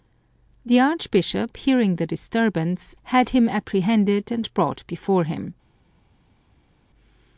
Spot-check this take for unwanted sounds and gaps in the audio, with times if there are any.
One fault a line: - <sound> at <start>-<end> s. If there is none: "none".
none